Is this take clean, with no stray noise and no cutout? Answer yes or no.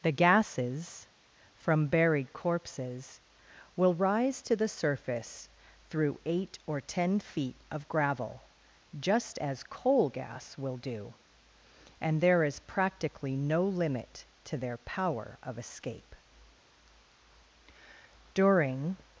yes